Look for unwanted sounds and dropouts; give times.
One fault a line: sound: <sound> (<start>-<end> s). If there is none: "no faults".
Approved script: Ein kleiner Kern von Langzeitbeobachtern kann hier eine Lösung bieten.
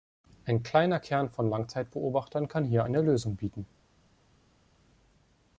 no faults